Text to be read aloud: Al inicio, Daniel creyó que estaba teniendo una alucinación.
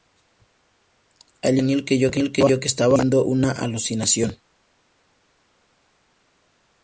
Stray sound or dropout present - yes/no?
no